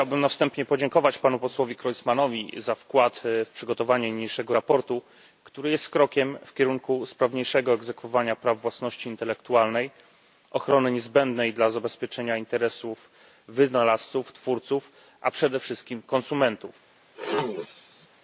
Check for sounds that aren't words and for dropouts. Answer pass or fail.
fail